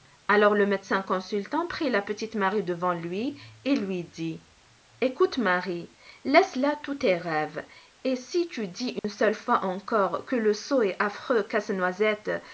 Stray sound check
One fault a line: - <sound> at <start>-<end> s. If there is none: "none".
- dropout at 9.0-9.0 s